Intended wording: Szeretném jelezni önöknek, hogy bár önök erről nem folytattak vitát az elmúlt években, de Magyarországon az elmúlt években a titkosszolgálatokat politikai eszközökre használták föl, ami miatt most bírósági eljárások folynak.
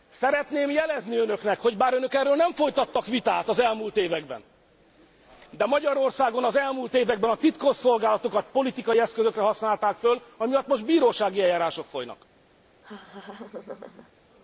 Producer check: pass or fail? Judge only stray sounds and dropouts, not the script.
fail